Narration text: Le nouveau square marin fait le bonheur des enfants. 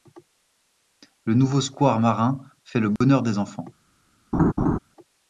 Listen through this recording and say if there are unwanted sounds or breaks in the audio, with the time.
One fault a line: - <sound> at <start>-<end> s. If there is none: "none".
- dropout at 3.0-3.0 s
- laugh at 4.3-4.8 s